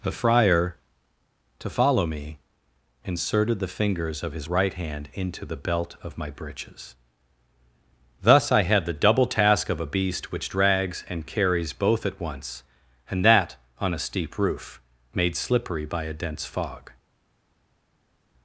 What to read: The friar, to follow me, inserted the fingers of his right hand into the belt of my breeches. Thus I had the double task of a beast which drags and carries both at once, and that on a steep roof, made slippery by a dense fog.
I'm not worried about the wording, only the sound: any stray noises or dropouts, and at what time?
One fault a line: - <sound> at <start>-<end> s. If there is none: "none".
none